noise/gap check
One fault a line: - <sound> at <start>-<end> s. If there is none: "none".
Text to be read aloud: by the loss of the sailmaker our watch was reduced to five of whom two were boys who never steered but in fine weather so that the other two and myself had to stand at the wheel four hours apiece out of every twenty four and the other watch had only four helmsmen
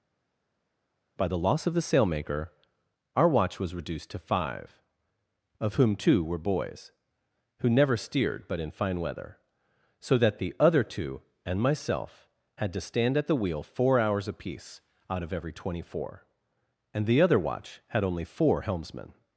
none